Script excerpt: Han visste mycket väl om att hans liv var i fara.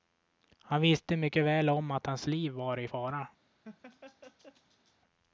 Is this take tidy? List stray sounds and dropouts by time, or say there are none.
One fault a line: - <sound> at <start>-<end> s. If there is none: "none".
- laugh at 3.6-5.0 s